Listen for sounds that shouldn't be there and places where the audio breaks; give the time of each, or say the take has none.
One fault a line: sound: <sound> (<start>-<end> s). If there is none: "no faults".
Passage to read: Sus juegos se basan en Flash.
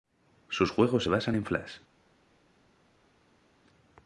no faults